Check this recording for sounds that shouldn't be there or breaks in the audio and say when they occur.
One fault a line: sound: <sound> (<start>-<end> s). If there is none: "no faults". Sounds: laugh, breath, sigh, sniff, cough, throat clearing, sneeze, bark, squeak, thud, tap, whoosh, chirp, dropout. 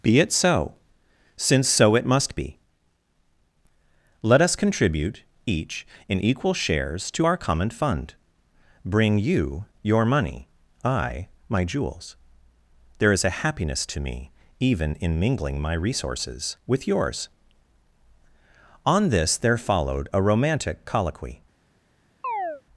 sound: chirp (22.2-22.6 s)